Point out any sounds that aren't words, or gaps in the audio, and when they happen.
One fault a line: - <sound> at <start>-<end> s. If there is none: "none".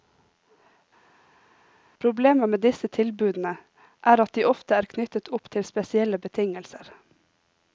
none